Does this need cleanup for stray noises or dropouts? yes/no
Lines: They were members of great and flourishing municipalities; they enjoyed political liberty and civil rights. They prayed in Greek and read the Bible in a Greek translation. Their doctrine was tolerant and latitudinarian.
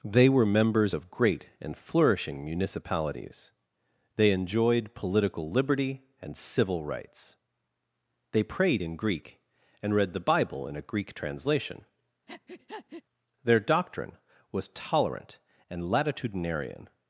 yes